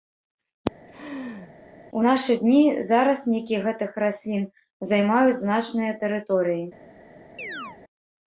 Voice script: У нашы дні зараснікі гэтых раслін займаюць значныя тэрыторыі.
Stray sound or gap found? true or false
true